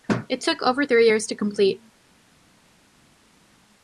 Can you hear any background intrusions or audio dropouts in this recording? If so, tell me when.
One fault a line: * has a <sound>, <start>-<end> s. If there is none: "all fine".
all fine